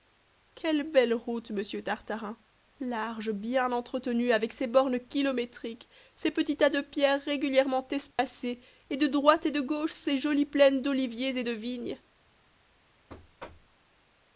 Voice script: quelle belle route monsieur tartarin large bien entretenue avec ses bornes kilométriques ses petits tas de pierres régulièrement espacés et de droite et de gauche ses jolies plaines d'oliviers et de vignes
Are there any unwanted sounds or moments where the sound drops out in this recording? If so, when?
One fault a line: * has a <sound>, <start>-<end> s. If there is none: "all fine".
* has a dropout, 8.1-8.2 s
* has a thud, 13.1-13.8 s